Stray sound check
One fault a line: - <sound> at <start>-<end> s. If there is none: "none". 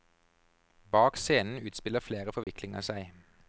- dropout at 2.4-2.5 s